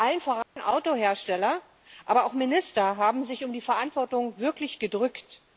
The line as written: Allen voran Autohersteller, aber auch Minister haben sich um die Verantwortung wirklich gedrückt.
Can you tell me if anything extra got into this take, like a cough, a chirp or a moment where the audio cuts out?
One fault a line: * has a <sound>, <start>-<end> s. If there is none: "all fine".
* has a dropout, 0.4-0.6 s